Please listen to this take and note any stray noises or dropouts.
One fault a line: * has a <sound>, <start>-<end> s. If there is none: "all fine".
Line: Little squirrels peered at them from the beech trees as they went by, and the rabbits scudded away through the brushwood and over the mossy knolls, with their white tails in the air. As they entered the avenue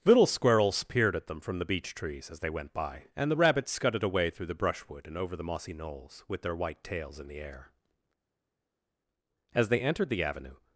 all fine